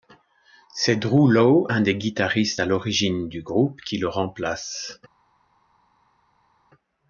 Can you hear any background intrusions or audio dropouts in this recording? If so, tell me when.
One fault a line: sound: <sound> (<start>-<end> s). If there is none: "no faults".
no faults